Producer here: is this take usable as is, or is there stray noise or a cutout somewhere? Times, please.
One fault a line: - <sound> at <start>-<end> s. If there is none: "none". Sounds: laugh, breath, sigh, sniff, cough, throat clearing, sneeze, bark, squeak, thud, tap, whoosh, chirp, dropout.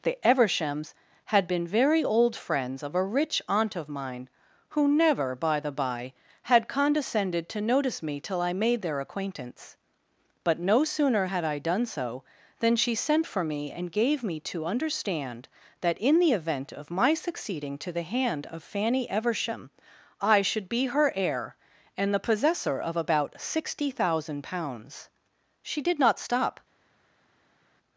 none